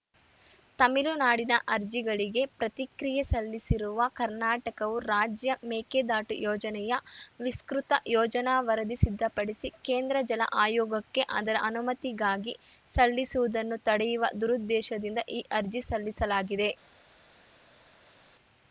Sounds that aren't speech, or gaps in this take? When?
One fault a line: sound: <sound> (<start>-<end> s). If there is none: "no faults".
no faults